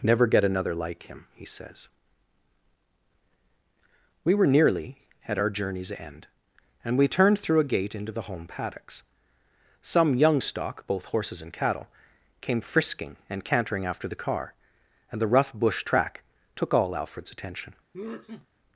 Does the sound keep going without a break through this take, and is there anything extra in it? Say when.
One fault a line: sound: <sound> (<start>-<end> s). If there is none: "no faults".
sound: sneeze (17.9-18.5 s)